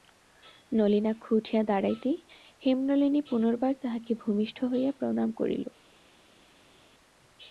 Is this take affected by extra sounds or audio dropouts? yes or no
no